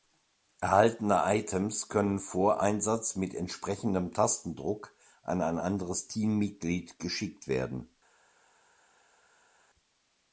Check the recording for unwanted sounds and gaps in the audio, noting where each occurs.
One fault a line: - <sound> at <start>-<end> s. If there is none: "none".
none